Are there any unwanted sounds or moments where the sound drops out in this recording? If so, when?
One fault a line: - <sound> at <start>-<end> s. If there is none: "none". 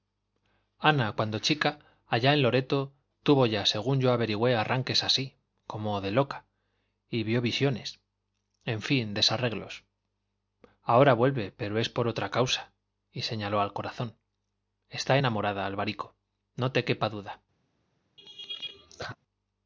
- laugh at 18.2-19.2 s